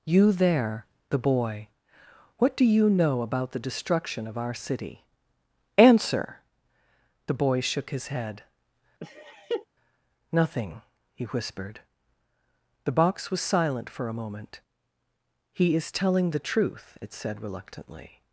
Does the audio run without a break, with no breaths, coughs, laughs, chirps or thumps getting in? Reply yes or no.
no